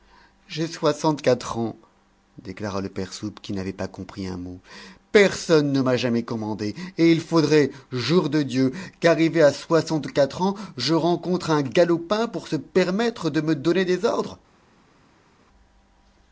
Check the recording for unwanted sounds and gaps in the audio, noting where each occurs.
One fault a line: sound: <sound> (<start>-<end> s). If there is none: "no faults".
no faults